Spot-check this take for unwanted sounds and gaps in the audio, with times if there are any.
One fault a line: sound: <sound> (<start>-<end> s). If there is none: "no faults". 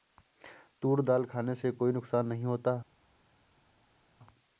no faults